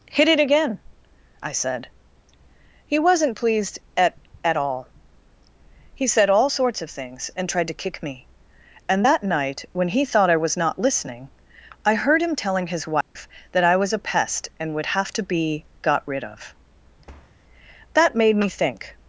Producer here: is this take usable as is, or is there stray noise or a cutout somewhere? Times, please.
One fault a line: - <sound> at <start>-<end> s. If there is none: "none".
- dropout at 13.0-13.2 s
- thud at 17.1-17.4 s